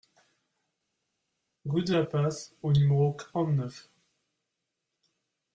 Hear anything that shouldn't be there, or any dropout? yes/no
no